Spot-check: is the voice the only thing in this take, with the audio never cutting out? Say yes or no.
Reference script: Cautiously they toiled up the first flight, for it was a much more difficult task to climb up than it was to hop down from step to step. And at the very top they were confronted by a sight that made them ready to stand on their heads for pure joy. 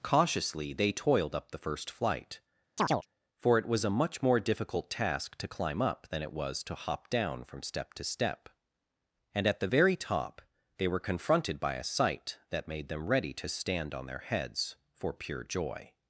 no